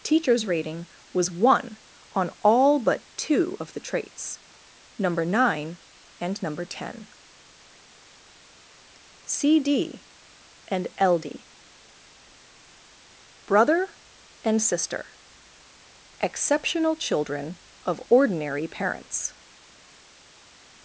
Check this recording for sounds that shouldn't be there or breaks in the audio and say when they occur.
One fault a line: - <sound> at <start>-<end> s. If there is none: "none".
none